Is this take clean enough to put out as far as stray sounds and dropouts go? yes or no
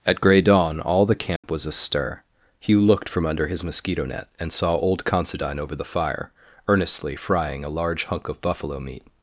no